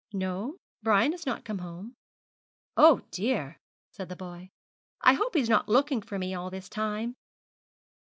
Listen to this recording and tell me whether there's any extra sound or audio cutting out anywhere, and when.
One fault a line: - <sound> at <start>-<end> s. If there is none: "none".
none